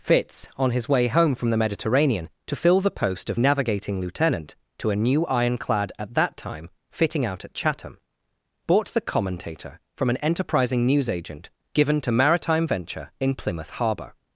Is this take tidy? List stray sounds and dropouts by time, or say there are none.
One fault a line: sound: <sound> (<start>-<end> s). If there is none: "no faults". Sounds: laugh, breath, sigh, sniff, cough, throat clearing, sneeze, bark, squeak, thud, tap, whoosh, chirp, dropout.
no faults